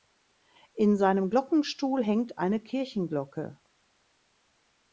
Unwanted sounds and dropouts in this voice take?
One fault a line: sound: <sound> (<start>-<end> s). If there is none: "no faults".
no faults